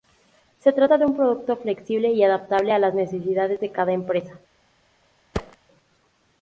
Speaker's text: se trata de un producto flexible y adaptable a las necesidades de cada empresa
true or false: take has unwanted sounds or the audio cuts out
true